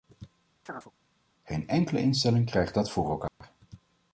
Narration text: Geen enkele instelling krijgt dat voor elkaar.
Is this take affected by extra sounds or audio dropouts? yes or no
yes